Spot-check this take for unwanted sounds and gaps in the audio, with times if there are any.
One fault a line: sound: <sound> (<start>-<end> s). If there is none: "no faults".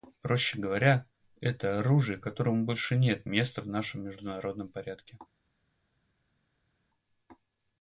no faults